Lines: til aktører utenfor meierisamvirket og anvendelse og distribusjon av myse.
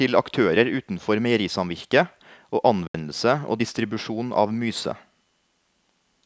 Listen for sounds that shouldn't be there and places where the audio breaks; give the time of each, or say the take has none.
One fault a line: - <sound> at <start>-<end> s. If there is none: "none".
- dropout at 2.9-2.9 s